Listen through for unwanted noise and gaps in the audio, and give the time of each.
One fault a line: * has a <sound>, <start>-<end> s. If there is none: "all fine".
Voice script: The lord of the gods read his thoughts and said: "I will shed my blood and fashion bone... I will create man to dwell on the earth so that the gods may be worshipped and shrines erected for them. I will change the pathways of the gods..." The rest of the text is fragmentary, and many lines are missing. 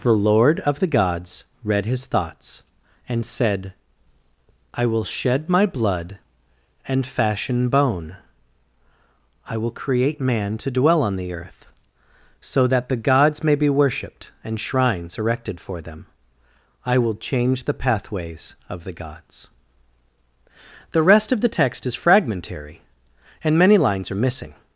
all fine